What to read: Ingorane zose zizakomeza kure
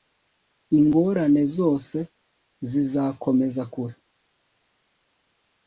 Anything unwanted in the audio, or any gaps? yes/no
no